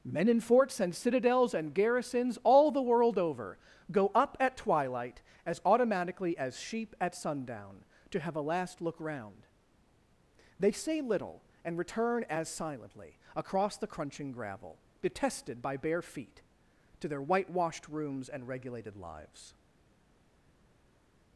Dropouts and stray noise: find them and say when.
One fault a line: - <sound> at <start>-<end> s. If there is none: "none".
none